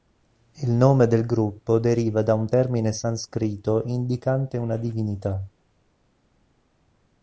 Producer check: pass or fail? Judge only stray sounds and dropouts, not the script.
pass